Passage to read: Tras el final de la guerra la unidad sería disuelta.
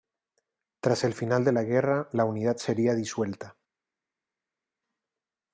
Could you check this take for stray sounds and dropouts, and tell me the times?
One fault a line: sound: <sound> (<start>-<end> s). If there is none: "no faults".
no faults